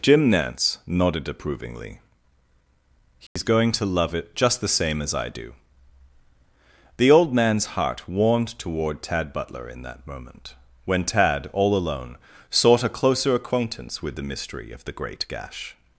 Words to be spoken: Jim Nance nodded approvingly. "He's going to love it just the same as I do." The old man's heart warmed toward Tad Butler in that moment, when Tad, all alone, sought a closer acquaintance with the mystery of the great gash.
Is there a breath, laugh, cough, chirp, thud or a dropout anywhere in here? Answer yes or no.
yes